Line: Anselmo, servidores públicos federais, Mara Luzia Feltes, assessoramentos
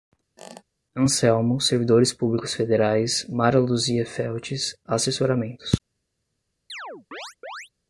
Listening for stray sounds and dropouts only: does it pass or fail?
fail